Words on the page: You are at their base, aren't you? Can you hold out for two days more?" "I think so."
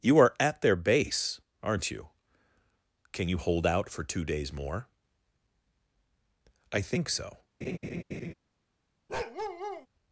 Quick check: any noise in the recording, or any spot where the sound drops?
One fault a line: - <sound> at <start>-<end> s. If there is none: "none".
- laugh at 7.6-8.3 s
- bark at 9.1-9.9 s